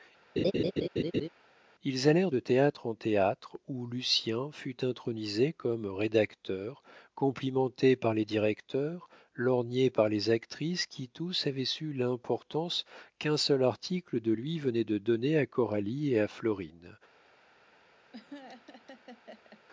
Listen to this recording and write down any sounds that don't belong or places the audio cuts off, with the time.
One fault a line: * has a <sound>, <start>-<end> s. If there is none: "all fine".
* has a laugh, 0.4-1.3 s
* has a laugh, 18.1-19.6 s